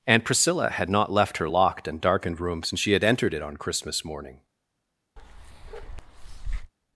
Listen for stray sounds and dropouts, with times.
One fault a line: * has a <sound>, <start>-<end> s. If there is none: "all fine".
* has a bark, 5.2-6.7 s